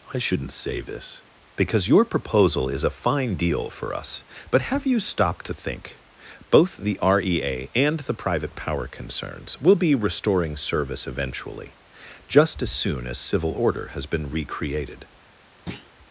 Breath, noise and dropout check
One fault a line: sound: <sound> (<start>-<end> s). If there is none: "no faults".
sound: thud (15.7-15.9 s)